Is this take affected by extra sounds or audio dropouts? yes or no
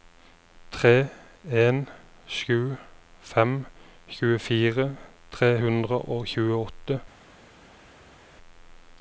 no